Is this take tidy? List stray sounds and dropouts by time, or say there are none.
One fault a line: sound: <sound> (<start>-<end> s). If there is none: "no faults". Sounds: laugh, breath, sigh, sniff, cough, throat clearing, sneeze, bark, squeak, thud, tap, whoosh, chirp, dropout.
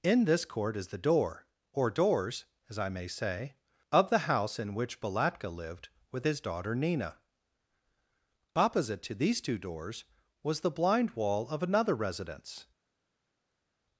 no faults